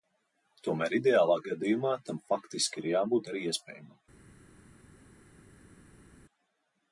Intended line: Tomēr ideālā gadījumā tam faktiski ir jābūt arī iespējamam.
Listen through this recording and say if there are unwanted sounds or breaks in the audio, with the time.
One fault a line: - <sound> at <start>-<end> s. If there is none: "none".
none